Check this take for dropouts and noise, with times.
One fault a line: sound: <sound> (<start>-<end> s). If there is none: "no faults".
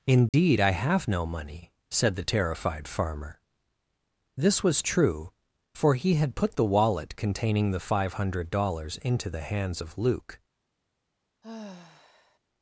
sound: dropout (0.3-0.3 s)
sound: sigh (11.4-12.4 s)